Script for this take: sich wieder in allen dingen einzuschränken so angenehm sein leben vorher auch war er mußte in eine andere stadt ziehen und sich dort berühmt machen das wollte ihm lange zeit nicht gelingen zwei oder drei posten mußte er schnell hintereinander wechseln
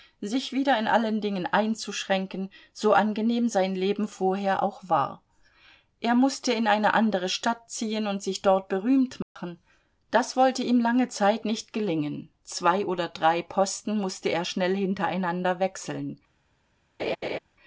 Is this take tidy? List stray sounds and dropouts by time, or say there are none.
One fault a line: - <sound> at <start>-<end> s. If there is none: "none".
- dropout at 9.2-9.4 s
- laugh at 17.0-17.4 s